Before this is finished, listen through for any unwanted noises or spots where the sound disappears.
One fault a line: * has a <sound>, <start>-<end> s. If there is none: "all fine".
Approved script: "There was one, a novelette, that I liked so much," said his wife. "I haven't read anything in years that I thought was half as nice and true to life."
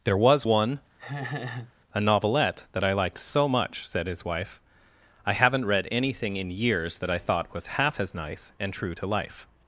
* has a laugh, 1.0-1.7 s